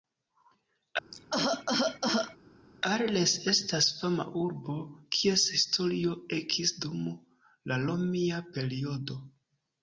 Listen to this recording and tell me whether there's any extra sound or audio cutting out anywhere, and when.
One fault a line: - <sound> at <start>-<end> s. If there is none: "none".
- cough at 1.1-2.4 s